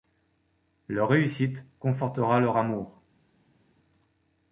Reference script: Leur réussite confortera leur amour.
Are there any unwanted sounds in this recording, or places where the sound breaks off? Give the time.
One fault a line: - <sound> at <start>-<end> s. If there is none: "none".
none